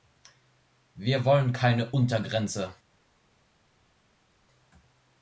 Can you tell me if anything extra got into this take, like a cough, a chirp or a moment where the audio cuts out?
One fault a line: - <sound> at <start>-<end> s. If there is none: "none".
none